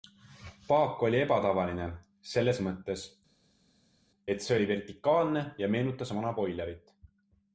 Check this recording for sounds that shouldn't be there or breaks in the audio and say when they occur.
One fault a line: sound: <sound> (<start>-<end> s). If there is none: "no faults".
no faults